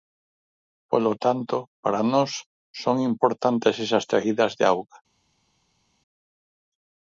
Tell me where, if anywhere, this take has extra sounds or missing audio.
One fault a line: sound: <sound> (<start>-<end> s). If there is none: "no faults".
no faults